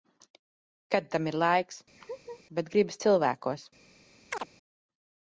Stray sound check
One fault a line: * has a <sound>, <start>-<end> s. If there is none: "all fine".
* has a laugh, 2.0-2.4 s
* has a chirp, 4.3-4.5 s